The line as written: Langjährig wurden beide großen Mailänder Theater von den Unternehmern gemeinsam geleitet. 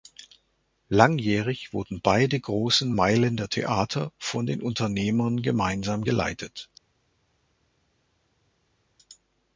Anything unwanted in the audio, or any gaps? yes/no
no